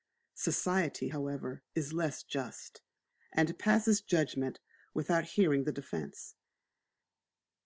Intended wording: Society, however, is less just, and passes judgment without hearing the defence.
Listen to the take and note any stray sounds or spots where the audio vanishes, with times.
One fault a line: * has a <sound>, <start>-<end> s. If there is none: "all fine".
all fine